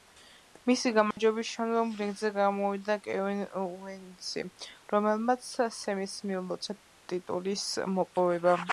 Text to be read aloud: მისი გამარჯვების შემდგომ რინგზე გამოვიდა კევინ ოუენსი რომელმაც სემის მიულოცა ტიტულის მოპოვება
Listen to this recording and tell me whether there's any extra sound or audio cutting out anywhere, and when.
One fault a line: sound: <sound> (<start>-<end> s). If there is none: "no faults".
sound: dropout (1.1-1.2 s)